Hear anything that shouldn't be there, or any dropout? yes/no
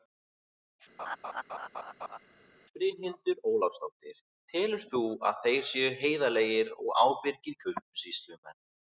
yes